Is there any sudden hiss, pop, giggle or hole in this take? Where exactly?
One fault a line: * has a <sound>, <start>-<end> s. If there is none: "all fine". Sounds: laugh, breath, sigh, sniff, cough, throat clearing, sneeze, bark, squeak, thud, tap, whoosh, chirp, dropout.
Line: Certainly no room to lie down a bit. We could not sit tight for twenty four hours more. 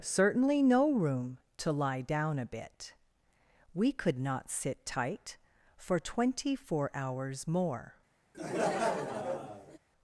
* has a laugh, 8.3-9.8 s